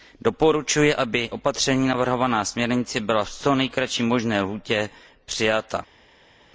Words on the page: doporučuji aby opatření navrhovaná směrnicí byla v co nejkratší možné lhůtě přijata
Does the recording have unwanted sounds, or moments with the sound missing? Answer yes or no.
no